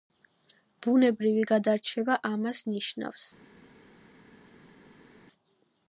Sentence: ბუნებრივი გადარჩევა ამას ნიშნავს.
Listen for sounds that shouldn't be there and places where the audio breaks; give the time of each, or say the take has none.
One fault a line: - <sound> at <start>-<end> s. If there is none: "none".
none